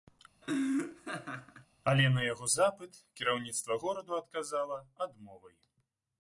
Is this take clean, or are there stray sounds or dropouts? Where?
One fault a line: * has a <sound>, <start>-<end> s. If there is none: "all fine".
* has a laugh, 0.4-1.7 s